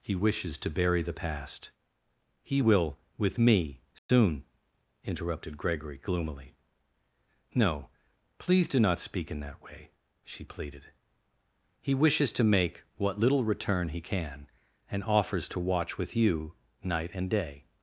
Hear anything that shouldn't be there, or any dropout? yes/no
yes